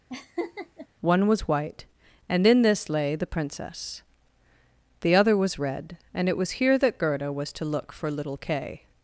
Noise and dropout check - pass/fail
fail